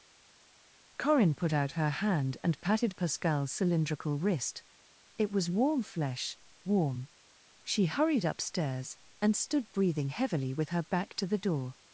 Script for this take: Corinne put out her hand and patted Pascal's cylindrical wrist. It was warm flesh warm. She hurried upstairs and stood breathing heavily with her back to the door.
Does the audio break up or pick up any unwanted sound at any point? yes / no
no